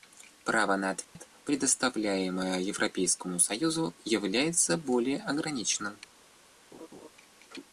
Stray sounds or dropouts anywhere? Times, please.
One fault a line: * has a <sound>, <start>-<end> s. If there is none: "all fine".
* has a dropout, 1.0-1.2 s
* has a laugh, 6.7-7.1 s